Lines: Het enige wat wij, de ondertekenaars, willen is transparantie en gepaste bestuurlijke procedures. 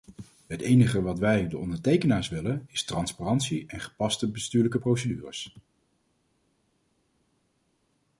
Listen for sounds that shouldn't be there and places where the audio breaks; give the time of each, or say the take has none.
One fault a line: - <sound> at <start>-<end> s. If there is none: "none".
none